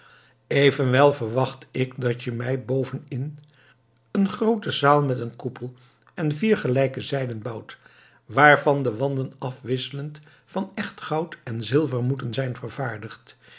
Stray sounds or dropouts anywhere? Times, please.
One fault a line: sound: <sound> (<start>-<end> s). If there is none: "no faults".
no faults